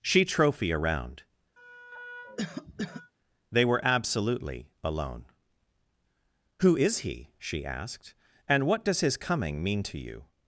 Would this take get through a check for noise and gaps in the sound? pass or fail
fail